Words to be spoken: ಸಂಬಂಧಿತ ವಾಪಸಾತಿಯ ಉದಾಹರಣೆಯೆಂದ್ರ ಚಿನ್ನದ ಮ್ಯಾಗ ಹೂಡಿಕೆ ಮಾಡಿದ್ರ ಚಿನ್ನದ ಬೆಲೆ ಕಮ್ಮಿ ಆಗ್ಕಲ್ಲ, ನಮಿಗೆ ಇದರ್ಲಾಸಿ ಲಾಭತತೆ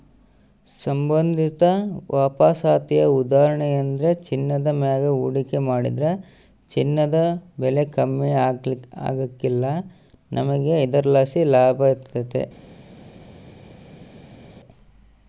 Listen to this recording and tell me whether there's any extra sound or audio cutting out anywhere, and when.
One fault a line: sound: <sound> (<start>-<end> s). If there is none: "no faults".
no faults